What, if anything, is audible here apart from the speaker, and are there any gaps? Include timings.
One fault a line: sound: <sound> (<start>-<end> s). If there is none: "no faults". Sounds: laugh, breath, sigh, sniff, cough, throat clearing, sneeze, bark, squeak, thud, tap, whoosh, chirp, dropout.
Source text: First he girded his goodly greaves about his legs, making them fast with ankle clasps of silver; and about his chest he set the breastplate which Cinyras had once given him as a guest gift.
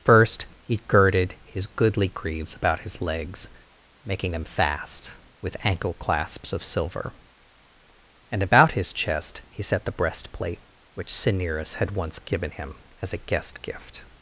no faults